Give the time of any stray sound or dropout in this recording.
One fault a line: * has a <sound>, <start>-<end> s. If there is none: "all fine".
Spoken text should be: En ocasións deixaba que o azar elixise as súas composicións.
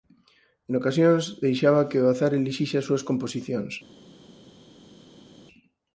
all fine